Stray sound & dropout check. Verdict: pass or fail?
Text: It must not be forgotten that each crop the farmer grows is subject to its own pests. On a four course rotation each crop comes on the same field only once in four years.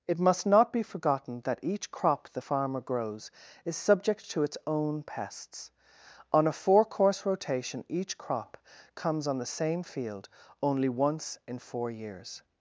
pass